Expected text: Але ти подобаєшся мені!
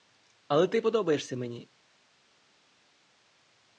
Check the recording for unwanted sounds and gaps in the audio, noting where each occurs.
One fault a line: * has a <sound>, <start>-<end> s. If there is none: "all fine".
all fine